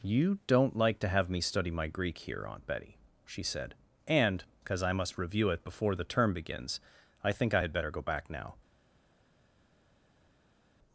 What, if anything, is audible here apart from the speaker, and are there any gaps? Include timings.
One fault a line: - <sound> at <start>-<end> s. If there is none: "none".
none